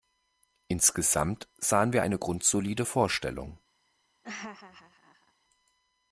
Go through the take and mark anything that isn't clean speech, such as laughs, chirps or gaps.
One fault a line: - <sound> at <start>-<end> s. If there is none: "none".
- laugh at 4.2-5.3 s